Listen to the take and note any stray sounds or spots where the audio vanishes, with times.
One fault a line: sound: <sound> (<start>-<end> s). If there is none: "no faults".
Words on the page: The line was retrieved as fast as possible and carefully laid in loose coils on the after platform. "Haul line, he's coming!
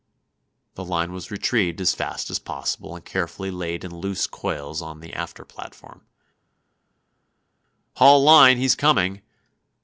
no faults